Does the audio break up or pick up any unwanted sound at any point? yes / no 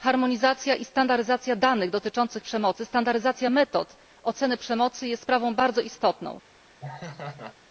yes